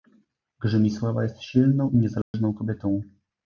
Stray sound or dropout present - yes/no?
yes